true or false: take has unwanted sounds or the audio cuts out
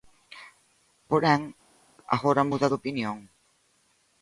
false